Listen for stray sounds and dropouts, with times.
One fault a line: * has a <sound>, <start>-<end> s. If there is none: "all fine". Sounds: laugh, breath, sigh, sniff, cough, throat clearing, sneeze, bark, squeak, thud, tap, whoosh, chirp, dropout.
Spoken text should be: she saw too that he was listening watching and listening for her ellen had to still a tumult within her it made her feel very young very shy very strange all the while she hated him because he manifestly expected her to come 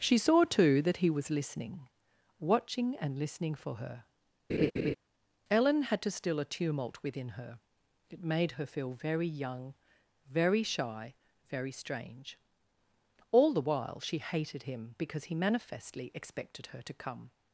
* has a laugh, 4.5-5.0 s